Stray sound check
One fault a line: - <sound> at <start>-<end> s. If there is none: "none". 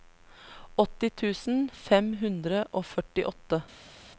none